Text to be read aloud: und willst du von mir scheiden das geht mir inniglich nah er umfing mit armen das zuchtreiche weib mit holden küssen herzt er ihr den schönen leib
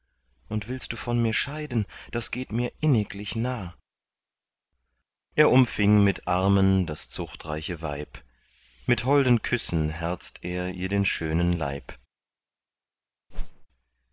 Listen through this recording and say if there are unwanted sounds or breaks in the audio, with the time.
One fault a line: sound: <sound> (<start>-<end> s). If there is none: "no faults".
sound: whoosh (13.3-13.7 s)